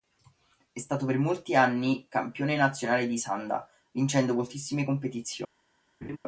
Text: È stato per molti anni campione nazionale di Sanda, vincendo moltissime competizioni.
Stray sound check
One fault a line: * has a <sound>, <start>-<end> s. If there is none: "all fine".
* has a laugh, 6.0-6.2 s